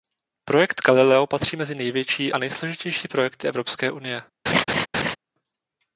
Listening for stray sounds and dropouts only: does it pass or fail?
fail